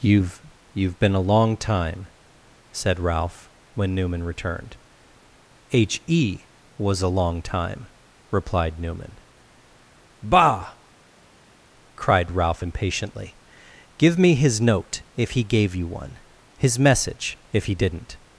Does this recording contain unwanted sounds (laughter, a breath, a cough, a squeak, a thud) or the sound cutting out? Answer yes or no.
no